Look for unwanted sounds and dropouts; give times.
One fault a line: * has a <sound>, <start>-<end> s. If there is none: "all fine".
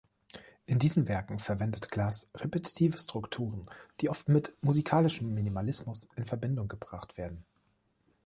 all fine